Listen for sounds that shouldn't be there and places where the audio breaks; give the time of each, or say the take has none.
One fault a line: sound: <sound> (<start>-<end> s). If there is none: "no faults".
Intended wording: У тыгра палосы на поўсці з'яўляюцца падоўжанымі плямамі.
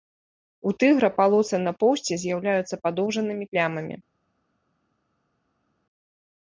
no faults